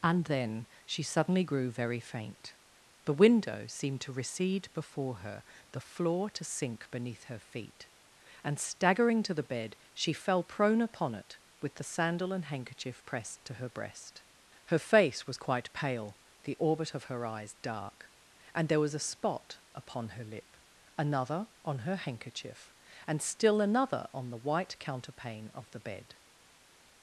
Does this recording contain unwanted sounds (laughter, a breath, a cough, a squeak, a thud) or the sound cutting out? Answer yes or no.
no